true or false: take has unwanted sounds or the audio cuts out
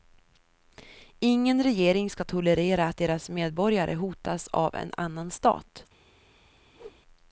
true